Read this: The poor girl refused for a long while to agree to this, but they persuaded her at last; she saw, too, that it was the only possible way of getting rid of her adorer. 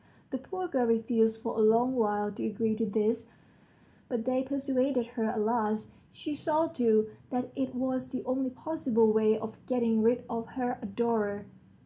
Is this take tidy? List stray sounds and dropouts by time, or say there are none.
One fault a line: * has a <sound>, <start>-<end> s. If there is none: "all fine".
all fine